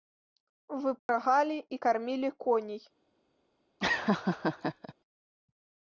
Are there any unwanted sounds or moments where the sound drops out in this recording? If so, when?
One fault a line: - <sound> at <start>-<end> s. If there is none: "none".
- dropout at 1.0-1.1 s
- laugh at 3.8-4.9 s